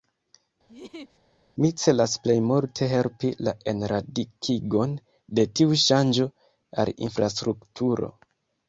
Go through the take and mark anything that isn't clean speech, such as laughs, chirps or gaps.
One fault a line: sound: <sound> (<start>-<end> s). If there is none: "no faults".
sound: laugh (0.7-1.2 s)